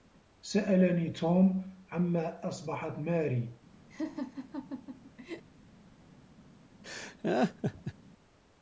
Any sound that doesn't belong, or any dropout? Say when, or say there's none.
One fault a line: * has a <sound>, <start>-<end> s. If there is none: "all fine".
* has a laugh, 3.9-5.4 s
* has a laugh, 6.8-7.9 s